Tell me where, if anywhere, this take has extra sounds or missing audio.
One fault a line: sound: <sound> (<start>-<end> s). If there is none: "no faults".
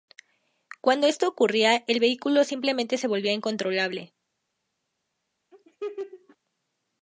sound: laugh (5.5-6.4 s)